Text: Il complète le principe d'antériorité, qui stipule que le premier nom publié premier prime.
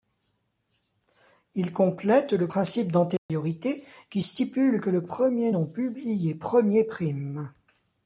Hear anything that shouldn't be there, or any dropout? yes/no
yes